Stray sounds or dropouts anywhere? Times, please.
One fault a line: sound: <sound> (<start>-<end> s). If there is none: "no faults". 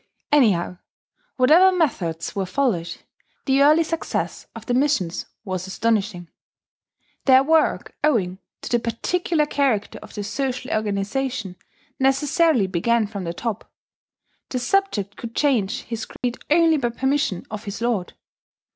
sound: dropout (16.2-16.2 s)